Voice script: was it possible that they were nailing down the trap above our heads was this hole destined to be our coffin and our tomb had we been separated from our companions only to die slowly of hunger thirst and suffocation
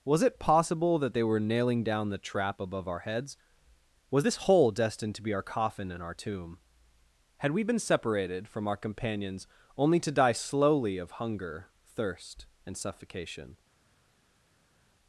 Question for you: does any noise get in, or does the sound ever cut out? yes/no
no